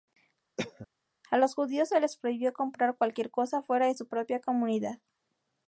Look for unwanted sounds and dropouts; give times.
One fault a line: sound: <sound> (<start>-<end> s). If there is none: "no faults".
sound: cough (0.6-0.9 s)